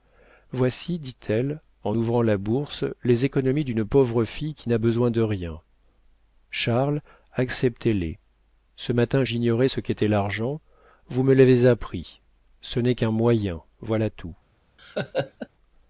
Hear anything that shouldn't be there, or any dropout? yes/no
yes